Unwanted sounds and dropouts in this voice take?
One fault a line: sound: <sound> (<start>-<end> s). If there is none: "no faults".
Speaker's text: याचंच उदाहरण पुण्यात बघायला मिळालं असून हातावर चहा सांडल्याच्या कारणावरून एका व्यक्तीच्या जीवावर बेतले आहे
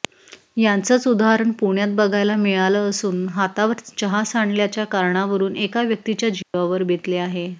sound: dropout (6.4-6.5 s)